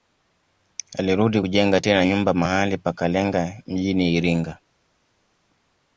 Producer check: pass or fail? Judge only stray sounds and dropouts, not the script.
pass